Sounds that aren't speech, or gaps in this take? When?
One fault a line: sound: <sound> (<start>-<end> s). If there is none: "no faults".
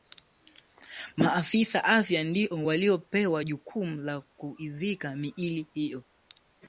no faults